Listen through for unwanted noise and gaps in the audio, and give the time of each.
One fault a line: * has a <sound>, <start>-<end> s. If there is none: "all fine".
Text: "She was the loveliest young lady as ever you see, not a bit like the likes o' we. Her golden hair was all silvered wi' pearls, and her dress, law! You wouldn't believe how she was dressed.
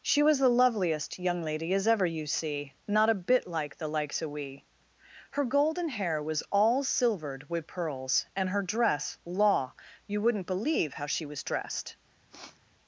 * has a sniff, 12.3-12.6 s